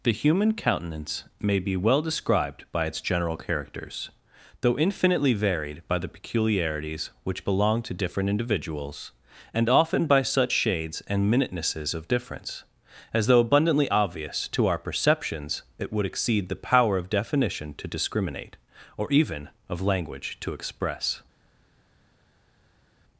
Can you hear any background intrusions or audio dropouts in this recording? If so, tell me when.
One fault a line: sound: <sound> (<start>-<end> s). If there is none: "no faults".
no faults